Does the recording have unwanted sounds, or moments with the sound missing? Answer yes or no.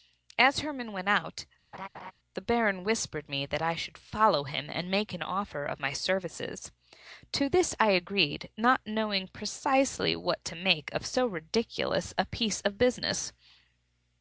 yes